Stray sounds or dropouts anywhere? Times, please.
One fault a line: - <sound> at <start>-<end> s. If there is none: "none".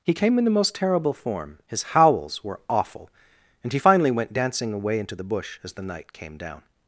none